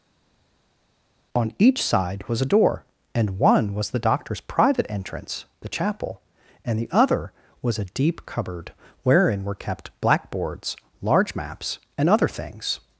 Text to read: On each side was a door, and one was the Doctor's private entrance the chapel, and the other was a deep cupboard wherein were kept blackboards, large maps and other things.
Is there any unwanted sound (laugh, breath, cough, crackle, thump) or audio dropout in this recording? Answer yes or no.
no